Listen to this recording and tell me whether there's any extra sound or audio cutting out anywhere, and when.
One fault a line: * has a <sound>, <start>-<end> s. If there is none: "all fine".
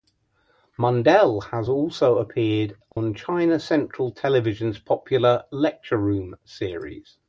* has a dropout, 2.9-3.0 s